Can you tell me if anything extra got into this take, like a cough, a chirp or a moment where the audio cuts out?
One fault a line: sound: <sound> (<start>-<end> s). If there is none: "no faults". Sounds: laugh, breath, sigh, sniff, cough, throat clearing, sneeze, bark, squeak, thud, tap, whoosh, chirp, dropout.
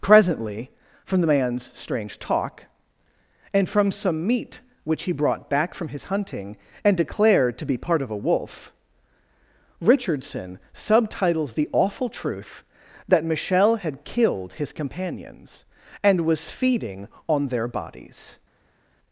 no faults